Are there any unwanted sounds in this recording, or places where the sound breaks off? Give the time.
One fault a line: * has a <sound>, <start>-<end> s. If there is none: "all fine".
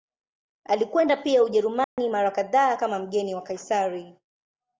* has a dropout, 1.8-2.0 s